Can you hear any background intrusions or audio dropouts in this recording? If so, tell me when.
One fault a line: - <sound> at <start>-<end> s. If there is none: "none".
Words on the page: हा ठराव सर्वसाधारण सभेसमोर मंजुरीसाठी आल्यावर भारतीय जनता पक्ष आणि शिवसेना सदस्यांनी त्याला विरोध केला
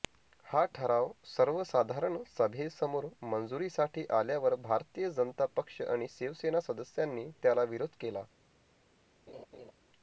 - laugh at 9.3-9.7 s